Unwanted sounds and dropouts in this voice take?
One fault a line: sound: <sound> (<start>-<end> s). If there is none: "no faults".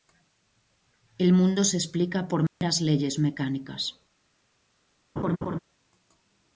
sound: dropout (2.5-2.6 s)
sound: laugh (5.2-5.6 s)